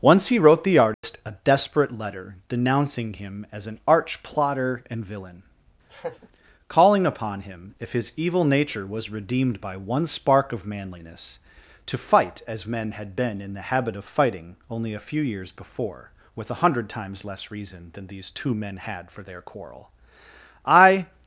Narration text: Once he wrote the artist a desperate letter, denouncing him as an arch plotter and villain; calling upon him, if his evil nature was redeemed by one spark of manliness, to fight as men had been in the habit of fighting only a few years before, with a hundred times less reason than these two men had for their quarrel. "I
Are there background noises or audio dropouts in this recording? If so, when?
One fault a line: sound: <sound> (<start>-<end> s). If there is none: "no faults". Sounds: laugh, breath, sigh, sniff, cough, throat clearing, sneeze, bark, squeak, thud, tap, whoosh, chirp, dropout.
sound: dropout (0.9-1.0 s)
sound: laugh (5.9-6.3 s)